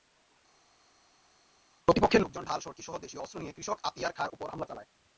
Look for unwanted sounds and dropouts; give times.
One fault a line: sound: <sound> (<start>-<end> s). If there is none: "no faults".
no faults